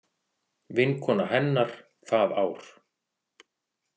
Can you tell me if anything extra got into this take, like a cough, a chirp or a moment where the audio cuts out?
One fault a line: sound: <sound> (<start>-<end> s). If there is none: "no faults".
no faults